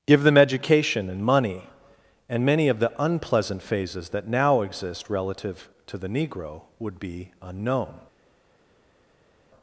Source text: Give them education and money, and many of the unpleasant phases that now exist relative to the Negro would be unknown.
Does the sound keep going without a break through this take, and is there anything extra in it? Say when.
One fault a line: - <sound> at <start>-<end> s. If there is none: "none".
none